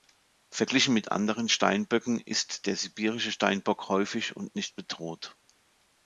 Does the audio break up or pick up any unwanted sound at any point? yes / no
no